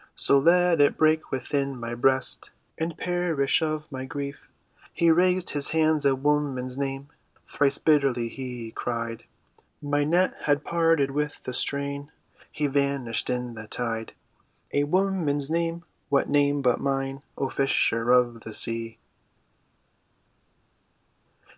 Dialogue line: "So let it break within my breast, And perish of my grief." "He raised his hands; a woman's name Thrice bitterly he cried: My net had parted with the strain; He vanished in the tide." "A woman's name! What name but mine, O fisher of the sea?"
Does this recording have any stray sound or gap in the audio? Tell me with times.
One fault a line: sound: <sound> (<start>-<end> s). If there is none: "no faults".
no faults